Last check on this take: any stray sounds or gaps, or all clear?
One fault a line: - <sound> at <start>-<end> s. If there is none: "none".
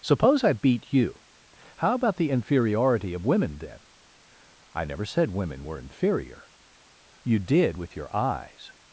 none